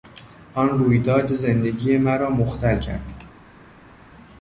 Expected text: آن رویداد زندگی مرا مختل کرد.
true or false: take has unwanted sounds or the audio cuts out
false